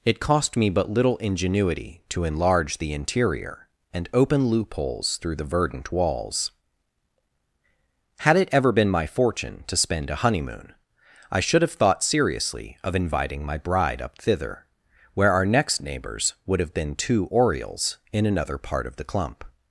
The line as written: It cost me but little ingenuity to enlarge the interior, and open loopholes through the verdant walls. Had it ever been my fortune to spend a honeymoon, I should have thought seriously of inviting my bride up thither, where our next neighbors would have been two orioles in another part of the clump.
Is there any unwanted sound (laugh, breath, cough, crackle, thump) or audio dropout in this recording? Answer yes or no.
no